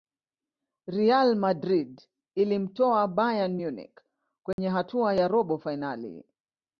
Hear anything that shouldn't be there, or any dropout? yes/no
yes